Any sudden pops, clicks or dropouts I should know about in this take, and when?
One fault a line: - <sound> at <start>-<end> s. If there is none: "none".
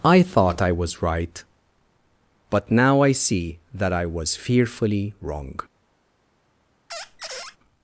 - squeak at 6.9-7.6 s